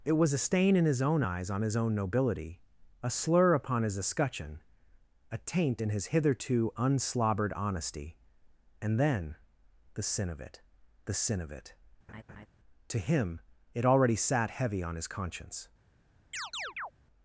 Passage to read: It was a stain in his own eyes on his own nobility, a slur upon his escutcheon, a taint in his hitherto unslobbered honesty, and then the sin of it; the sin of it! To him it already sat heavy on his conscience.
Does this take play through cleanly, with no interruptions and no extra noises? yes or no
no